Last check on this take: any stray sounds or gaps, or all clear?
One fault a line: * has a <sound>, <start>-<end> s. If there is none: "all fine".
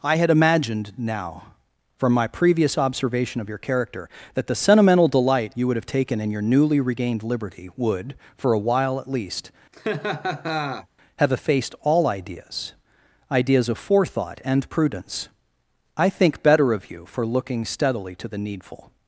* has a laugh, 9.7-10.9 s